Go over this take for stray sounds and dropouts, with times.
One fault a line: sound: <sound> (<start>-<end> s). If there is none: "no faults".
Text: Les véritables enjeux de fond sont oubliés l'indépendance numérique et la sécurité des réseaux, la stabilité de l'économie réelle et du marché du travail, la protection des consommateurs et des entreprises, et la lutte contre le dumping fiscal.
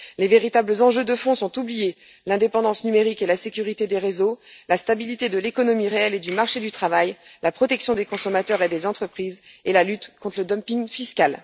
no faults